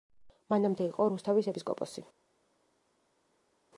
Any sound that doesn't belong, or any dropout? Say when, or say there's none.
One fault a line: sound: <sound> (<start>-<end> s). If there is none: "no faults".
no faults